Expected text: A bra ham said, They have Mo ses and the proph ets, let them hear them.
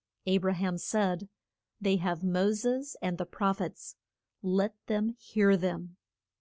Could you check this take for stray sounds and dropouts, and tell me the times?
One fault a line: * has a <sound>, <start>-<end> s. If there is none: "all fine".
all fine